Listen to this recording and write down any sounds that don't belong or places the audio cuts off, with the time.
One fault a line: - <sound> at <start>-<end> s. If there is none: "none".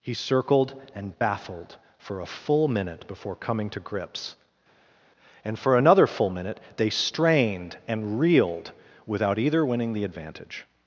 none